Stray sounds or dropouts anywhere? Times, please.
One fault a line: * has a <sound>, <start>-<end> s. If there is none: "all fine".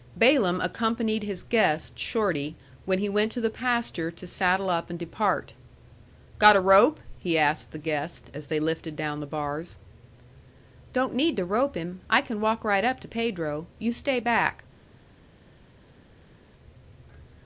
all fine